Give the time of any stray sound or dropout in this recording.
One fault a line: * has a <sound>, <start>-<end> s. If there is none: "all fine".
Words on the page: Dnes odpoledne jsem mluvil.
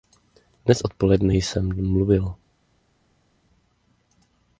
all fine